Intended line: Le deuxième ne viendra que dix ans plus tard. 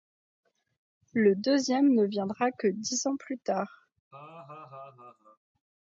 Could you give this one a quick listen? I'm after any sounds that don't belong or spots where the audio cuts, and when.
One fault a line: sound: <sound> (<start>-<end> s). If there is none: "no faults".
sound: laugh (4.1-5.4 s)